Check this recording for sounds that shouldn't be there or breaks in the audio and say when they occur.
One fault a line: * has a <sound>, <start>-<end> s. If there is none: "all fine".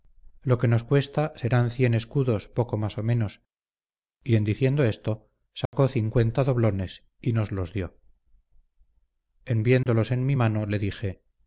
* has a dropout, 5.7-5.7 s
* has a dropout, 9.8-9.9 s